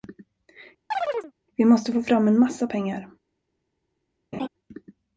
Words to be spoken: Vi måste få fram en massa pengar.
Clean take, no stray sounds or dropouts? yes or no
no